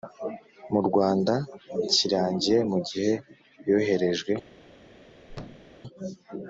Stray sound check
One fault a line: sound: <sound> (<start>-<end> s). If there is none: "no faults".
sound: thud (5.3-5.8 s)